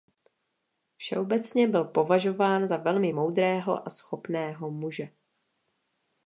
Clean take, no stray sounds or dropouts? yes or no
yes